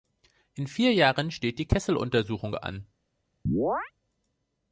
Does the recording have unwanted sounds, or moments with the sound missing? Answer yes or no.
yes